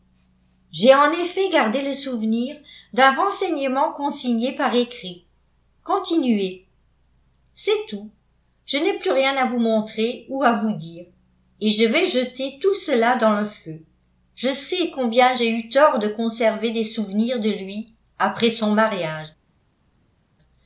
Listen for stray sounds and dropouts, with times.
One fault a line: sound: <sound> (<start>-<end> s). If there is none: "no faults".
no faults